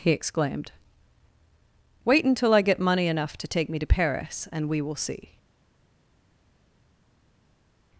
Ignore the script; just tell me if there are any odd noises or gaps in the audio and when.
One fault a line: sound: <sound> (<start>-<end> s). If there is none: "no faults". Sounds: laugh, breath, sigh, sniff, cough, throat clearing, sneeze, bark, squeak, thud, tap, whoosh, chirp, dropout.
no faults